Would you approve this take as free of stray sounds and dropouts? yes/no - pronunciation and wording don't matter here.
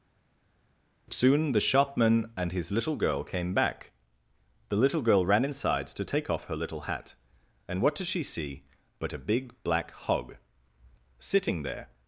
yes